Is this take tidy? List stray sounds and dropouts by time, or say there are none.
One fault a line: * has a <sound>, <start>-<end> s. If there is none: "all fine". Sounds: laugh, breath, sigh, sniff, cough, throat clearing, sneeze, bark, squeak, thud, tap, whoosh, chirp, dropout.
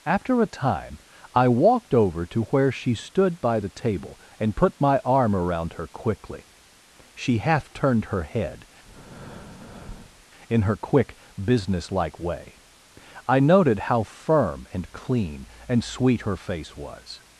* has a breath, 8.8-10.3 s